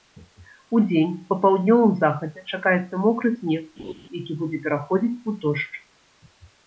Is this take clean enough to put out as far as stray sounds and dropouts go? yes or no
no